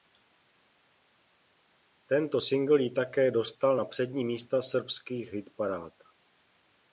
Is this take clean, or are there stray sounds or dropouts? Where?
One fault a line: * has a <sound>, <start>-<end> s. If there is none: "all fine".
all fine